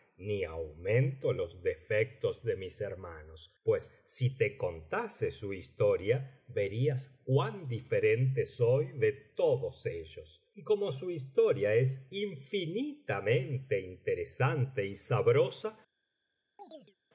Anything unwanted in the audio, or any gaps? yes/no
yes